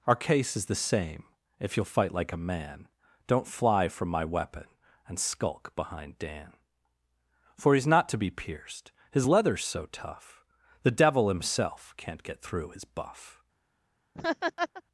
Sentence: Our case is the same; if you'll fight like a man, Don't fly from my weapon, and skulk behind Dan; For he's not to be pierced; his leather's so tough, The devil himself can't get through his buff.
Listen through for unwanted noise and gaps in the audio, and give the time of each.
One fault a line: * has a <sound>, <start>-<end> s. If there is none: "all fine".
* has a laugh, 14.1-14.8 s